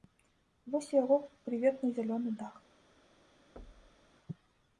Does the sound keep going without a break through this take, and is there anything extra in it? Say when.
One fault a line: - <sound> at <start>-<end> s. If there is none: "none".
- thud at 3.6-4.1 s